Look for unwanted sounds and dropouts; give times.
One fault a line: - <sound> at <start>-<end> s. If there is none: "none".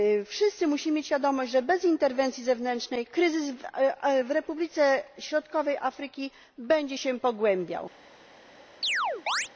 - chirp at 8.8-9.5 s